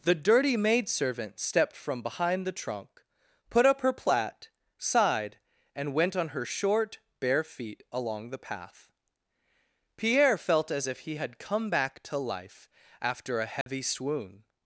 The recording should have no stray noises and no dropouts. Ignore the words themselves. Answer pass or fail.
fail